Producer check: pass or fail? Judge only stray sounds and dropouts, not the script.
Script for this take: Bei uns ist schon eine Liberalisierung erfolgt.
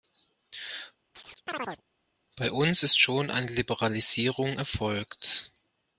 fail